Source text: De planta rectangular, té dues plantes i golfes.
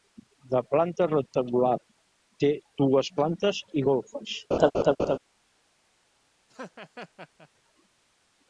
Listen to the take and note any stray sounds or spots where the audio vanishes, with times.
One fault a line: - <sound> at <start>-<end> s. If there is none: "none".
- laugh at 4.5-5.2 s
- laugh at 6.5-7.5 s